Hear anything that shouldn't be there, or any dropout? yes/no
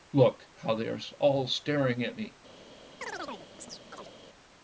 yes